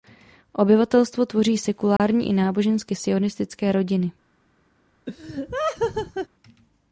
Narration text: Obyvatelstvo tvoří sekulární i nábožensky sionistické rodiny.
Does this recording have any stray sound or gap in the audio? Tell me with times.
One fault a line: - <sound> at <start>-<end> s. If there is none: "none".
- dropout at 2.0-2.0 s
- laugh at 5.1-6.3 s